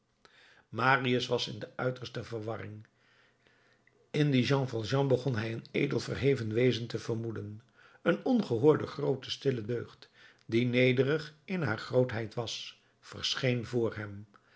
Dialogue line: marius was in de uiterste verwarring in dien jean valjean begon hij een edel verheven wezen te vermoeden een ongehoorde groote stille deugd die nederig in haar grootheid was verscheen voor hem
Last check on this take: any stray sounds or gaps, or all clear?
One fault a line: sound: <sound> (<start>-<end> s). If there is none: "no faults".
no faults